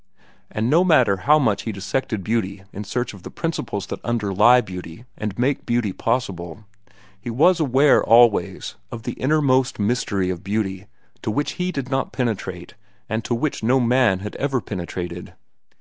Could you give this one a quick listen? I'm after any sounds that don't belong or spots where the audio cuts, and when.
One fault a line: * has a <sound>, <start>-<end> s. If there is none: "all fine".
all fine